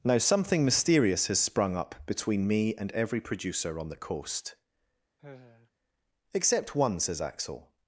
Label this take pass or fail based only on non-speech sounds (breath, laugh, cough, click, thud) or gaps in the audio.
fail